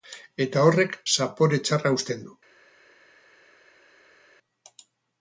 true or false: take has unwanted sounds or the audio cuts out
false